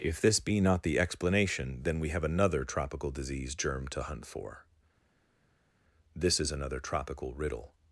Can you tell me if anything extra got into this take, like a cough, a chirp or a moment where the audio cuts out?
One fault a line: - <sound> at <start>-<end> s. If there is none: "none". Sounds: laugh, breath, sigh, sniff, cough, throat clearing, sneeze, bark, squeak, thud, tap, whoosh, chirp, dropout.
none